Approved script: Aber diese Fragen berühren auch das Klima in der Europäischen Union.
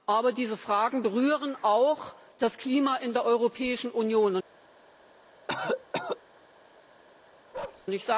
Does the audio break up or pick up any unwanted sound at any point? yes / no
yes